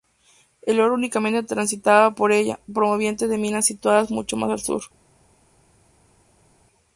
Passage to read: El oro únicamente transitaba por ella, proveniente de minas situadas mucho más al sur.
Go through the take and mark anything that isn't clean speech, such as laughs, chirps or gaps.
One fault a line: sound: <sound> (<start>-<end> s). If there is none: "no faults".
no faults